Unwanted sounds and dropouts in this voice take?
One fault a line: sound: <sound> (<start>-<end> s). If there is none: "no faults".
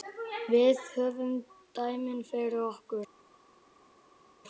no faults